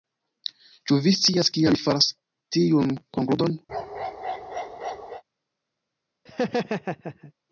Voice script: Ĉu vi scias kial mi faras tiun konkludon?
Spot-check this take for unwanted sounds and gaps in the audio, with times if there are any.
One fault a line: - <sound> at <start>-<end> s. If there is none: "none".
- bark at 3.7-5.2 s
- laugh at 6.3-7.3 s